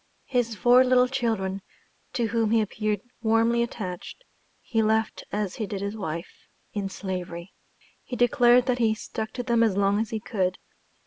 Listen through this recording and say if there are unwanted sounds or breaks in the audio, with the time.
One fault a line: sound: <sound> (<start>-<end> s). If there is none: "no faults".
no faults